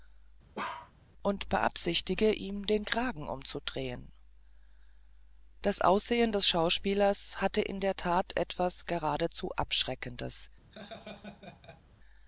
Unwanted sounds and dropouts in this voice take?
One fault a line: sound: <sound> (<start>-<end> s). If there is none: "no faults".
sound: bark (0.5-0.9 s)
sound: laugh (10.7-11.8 s)